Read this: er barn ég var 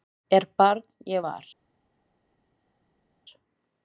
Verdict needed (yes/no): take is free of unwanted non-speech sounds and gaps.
yes